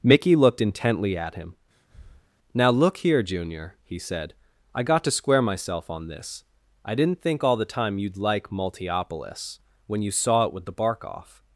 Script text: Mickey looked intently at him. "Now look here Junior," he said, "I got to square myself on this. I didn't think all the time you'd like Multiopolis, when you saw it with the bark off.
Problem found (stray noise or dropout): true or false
true